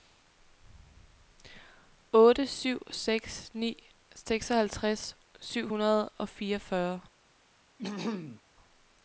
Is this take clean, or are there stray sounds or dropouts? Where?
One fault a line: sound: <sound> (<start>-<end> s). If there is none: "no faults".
sound: throat clearing (7.8-8.4 s)